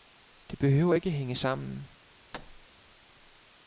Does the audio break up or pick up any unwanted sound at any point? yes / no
yes